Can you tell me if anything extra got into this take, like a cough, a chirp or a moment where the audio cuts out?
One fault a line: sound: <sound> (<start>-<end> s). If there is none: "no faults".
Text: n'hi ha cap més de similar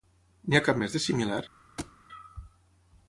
sound: thud (1.8-2.0 s)